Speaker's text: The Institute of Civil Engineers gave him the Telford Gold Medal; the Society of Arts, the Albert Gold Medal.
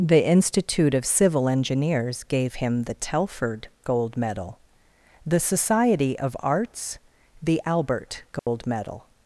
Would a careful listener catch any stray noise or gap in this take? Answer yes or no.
yes